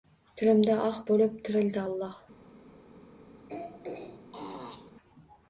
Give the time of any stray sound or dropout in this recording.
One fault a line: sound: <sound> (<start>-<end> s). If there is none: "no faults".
sound: throat clearing (3.5-4.9 s)